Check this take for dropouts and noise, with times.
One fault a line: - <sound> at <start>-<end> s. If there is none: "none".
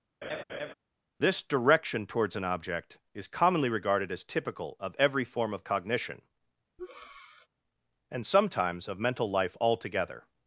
- laugh at 0.2-0.7 s
- breath at 6.8-7.5 s